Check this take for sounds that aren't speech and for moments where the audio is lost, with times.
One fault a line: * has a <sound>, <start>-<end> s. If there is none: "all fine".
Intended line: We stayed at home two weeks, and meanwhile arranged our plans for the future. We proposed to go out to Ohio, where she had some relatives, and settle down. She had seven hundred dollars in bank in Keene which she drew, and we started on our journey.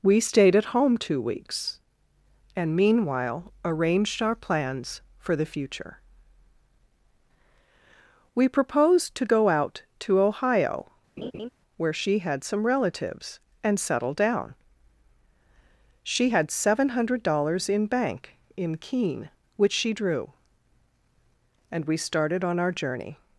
* has a laugh, 11.2-11.5 s